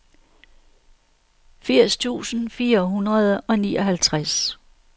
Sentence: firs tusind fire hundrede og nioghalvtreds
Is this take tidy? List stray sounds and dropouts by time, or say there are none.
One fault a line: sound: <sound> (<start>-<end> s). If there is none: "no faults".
no faults